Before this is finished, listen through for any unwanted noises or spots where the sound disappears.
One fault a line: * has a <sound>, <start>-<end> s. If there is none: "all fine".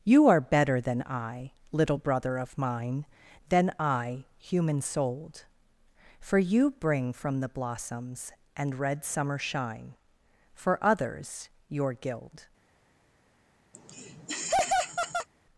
* has a laugh, 13.7-15.3 s